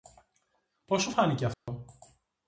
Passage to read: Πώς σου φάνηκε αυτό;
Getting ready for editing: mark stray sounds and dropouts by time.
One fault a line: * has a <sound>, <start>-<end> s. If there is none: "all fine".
* has a dropout, 1.5-1.7 s